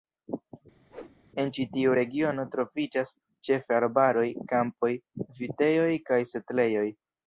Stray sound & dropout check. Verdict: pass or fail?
fail